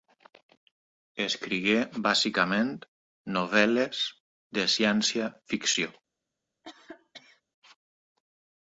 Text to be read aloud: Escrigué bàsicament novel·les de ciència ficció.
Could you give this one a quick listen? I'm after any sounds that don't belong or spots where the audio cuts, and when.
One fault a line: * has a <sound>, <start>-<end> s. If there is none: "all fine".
* has a cough, 6.6-7.4 s